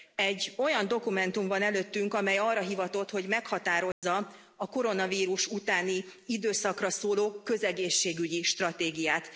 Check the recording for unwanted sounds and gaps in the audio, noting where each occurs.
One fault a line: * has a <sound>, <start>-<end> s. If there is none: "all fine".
* has a dropout, 3.9-4.0 s